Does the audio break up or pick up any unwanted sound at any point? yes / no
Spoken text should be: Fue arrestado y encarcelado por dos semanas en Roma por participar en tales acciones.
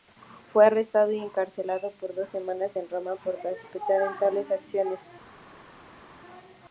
no